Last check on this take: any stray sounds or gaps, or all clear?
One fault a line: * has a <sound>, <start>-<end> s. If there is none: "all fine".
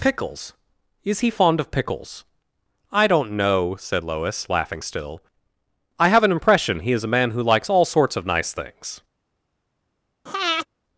* has a breath, 10.3-10.7 s